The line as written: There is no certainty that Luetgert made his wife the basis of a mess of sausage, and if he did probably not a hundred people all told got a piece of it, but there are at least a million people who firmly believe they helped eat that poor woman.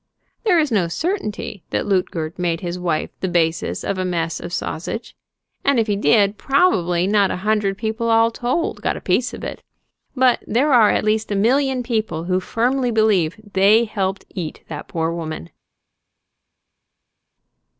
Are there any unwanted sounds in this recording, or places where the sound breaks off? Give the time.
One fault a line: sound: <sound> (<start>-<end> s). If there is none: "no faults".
no faults